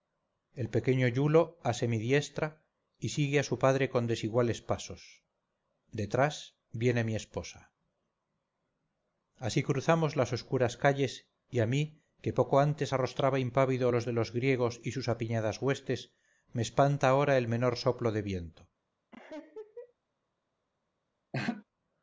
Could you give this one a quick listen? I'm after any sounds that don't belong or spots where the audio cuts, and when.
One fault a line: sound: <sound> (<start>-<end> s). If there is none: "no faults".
sound: laugh (19.1-19.9 s)
sound: laugh (21.3-21.6 s)